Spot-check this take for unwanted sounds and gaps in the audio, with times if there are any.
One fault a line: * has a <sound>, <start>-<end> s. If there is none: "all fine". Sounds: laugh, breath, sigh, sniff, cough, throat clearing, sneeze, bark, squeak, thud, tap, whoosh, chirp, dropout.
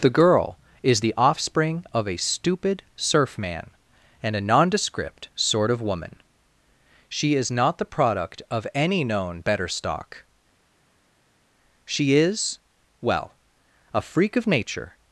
all fine